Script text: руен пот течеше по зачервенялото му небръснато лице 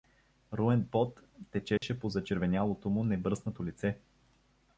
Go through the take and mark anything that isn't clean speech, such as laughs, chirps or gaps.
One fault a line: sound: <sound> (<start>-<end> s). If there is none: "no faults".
sound: dropout (1.8-1.8 s)